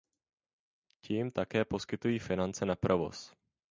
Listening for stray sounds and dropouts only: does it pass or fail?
pass